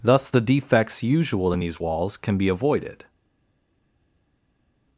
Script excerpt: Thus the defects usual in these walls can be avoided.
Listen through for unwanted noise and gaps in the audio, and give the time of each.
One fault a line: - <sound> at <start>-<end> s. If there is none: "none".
none